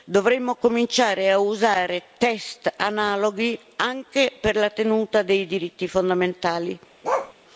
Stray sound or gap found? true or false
true